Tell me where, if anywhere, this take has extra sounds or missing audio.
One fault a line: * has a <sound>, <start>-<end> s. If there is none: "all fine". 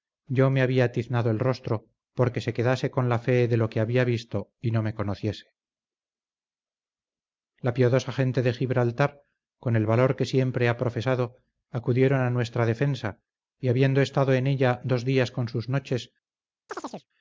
* has a chirp, 16.7-17.1 s